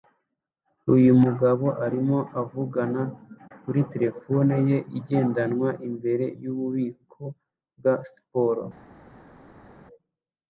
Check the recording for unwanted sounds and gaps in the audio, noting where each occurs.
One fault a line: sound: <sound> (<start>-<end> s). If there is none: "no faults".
no faults